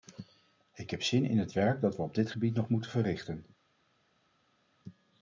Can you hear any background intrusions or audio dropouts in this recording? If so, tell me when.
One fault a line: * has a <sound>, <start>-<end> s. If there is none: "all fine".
all fine